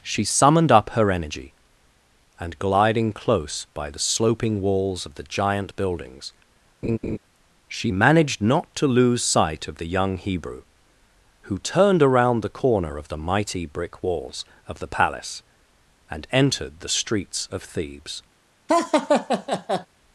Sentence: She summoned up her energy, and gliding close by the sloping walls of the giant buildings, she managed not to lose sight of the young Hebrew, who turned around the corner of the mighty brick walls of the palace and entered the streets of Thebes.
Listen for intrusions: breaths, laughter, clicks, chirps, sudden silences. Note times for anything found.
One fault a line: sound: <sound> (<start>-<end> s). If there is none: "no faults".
sound: laugh (6.8-7.2 s)
sound: laugh (18.7-19.9 s)